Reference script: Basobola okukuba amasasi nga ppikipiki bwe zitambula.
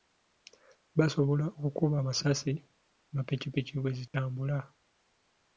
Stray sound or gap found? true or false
true